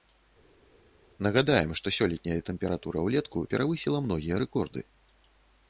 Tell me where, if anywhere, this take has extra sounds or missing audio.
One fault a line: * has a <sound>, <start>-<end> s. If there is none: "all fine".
all fine